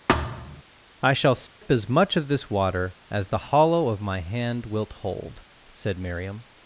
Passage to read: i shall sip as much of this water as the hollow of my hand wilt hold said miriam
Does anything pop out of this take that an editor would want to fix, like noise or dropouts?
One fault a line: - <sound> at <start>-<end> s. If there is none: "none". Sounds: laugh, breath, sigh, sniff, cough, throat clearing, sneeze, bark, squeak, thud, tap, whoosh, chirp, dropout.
- thud at 0.1-0.6 s
- dropout at 1.5-1.6 s